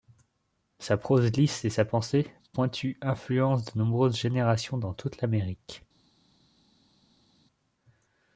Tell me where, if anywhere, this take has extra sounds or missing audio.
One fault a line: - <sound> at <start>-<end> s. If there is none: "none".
none